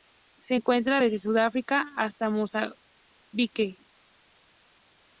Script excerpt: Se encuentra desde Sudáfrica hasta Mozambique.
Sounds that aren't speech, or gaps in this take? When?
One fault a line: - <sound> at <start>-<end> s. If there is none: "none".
none